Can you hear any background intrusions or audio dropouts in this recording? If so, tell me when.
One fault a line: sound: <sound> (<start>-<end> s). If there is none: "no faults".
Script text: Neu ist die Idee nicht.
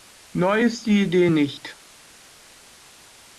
no faults